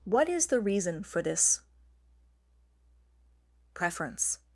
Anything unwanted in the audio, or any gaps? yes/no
no